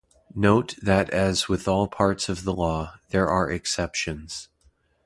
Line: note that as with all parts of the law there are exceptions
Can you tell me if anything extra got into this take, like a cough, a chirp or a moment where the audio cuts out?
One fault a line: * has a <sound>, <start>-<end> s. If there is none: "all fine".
all fine